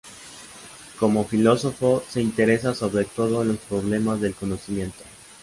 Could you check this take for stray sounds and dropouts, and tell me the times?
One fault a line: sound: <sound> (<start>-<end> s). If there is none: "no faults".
no faults